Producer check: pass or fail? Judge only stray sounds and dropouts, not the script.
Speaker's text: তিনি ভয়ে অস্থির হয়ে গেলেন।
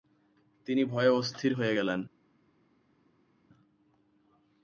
pass